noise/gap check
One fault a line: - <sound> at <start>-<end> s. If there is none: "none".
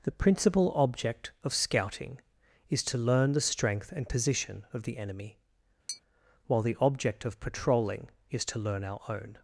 - tap at 5.9-6.0 s